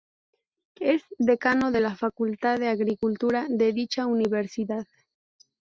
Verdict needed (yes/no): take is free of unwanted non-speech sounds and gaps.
yes